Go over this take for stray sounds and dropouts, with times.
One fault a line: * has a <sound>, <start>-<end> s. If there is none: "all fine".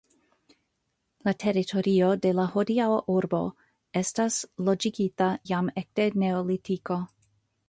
all fine